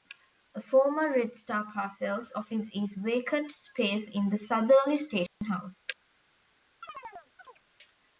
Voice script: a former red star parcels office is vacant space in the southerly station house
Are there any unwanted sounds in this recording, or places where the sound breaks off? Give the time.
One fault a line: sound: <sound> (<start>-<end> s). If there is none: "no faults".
sound: dropout (5.3-5.4 s)
sound: chirp (6.8-7.6 s)